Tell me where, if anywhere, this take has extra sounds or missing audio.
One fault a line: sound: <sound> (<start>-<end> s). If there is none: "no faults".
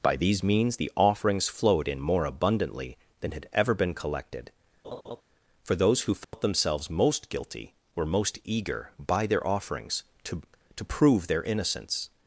sound: laugh (4.8-5.2 s)
sound: dropout (6.2-6.3 s)